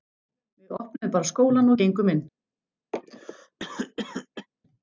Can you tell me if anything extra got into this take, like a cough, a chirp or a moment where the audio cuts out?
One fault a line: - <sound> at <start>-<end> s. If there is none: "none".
- cough at 2.9-4.5 s